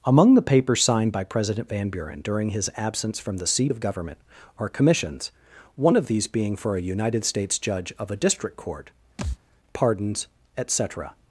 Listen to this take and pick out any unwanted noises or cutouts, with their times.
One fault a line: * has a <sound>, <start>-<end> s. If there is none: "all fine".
* has a thud, 9.2-9.4 s